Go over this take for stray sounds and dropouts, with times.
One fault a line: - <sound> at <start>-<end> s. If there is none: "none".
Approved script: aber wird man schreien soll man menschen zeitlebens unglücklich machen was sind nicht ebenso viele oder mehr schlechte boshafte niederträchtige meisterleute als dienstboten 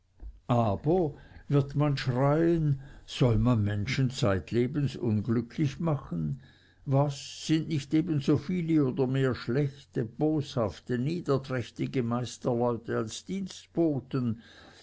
none